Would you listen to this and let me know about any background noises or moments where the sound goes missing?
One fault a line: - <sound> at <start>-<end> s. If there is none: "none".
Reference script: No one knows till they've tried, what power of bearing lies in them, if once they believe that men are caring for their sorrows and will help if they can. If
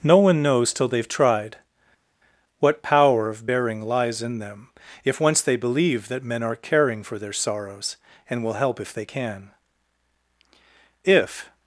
none